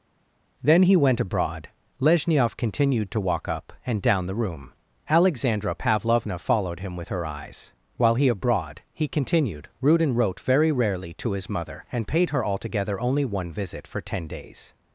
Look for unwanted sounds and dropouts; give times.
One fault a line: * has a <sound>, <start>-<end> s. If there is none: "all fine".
all fine